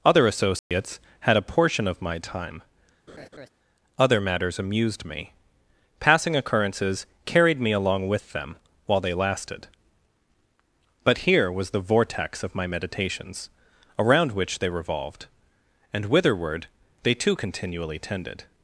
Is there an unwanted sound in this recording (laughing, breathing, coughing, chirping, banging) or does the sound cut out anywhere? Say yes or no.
yes